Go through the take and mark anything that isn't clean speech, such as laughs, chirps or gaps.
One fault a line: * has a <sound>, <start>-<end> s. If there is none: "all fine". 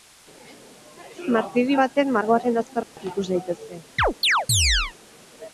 * has a dropout, 2.8-3.0 s
* has a chirp, 4.0-4.9 s